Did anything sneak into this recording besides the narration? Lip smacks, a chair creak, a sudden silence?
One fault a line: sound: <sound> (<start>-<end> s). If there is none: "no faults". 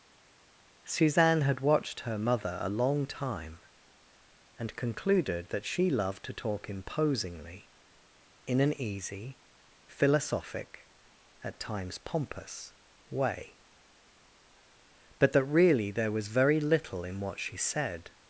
no faults